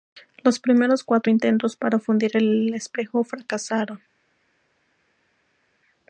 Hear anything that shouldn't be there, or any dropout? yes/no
no